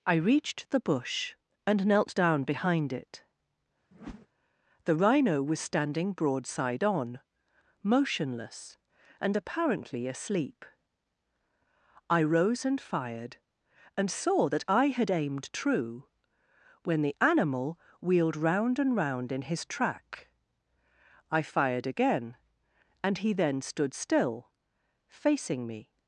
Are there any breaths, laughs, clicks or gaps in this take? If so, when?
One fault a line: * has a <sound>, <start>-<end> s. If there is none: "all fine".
* has a whoosh, 3.9-4.3 s